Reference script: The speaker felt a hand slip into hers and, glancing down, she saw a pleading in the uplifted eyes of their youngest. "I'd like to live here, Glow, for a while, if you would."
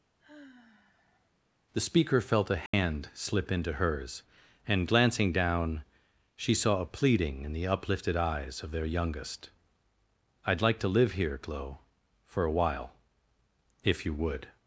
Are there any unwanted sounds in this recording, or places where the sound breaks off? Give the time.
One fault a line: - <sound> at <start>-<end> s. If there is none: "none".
- sigh at 0.2-1.3 s
- dropout at 2.7-2.7 s